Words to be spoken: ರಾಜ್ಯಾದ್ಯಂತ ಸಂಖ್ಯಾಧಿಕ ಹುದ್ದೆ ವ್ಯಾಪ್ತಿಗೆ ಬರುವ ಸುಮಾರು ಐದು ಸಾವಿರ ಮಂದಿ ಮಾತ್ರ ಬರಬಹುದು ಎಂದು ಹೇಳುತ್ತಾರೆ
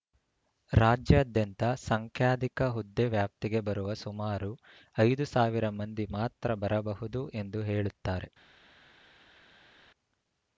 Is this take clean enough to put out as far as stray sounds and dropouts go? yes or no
yes